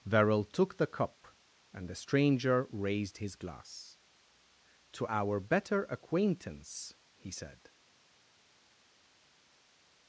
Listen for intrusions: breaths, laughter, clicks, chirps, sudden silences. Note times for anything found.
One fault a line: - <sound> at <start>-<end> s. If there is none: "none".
none